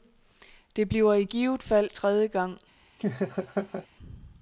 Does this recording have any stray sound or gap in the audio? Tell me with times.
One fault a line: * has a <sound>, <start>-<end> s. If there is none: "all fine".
* has a laugh, 3.0-3.9 s